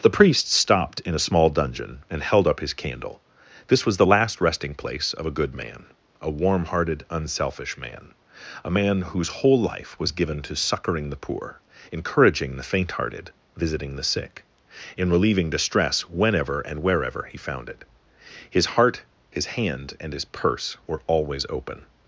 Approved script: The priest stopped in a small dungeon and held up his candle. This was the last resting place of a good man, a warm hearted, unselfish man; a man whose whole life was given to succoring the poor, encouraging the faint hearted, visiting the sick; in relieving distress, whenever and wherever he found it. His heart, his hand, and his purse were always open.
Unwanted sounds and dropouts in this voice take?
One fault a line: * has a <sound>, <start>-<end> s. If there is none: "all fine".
all fine